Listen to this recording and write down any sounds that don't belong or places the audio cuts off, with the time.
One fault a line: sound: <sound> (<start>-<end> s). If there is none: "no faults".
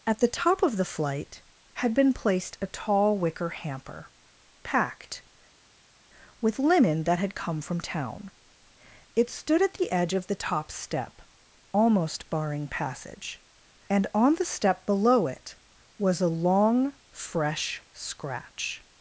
no faults